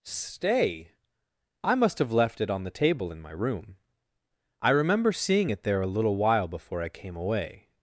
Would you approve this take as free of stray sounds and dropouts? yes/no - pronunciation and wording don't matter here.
yes